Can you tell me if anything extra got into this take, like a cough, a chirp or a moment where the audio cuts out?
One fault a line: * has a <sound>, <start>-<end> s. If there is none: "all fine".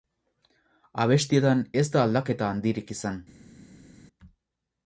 all fine